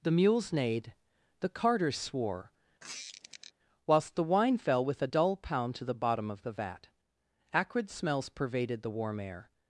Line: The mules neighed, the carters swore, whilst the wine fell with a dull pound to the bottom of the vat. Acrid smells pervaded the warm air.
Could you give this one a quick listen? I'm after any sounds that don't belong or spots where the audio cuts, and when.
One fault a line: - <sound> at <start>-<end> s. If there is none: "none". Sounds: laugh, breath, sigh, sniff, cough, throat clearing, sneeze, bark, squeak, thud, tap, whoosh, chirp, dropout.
- squeak at 2.8-3.5 s